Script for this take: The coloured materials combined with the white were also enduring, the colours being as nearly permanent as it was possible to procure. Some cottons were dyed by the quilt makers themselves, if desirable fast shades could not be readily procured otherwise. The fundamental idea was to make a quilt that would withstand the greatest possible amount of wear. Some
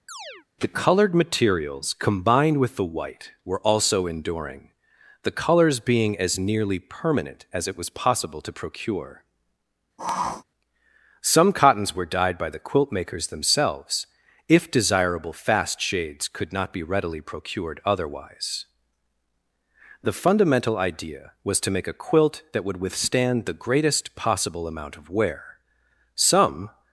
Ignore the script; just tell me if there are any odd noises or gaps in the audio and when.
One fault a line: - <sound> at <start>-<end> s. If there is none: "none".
- chirp at 0.1-0.5 s
- sniff at 10.0-10.4 s